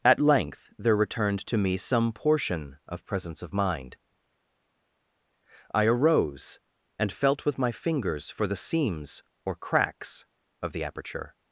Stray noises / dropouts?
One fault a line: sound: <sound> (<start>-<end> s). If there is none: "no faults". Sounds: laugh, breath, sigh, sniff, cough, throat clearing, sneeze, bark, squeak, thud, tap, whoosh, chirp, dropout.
no faults